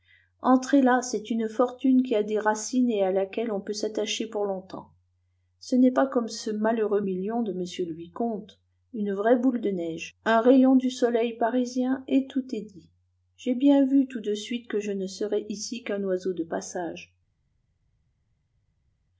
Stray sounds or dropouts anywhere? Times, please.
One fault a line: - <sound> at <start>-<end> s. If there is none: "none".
none